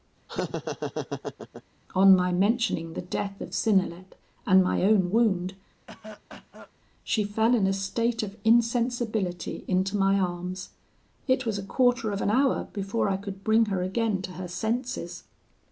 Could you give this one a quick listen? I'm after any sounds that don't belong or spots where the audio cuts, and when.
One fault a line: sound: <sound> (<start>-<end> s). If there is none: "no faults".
sound: laugh (0.3-1.6 s)
sound: cough (5.9-6.7 s)